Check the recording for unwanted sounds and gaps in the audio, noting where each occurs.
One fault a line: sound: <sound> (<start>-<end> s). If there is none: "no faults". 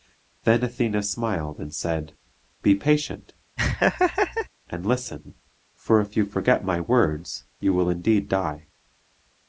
sound: laugh (3.6-4.5 s)